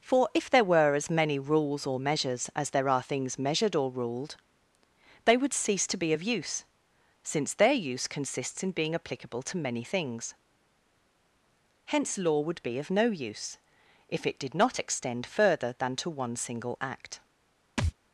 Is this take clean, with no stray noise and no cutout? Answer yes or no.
no